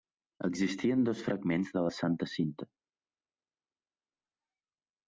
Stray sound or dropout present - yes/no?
no